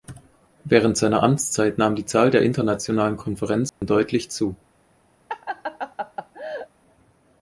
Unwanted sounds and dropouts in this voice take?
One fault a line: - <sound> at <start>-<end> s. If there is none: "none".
- dropout at 3.7-3.8 s
- laugh at 5.3-6.7 s